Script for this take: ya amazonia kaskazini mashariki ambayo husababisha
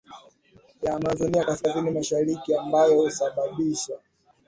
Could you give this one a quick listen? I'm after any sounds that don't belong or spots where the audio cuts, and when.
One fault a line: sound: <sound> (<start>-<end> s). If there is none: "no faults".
no faults